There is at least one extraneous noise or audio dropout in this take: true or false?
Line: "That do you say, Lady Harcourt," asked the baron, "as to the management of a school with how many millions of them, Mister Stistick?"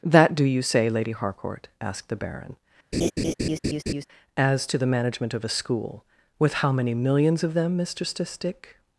true